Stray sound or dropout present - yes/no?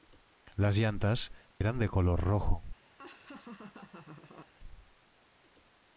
yes